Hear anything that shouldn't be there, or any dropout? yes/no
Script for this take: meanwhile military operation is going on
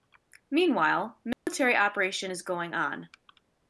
yes